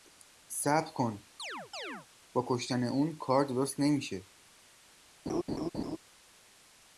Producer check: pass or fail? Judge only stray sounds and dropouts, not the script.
fail